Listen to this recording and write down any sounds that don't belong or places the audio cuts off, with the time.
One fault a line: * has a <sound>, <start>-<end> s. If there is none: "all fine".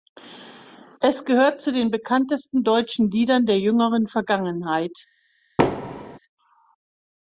* has a thud, 5.6-6.2 s